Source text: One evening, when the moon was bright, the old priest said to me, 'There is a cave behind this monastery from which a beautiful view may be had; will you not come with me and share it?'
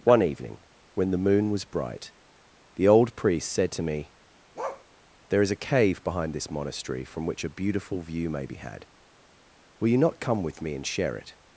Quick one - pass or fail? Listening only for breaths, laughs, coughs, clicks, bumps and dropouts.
fail